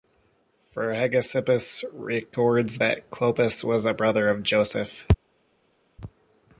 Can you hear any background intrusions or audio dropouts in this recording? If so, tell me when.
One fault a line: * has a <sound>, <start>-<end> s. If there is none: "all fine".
all fine